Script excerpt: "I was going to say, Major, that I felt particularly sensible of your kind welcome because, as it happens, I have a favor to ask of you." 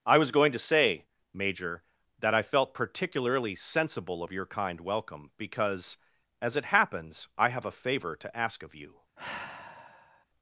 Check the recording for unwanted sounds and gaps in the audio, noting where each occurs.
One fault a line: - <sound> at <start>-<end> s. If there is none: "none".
- sigh at 9.2-10.3 s